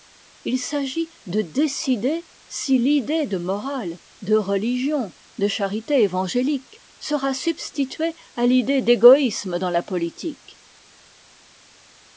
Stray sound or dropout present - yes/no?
no